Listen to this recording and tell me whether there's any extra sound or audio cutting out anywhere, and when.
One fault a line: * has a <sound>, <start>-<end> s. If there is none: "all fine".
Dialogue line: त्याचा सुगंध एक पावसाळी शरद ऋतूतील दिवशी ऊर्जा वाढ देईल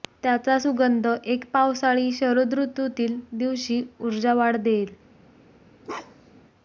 * has a bark, 5.8-6.4 s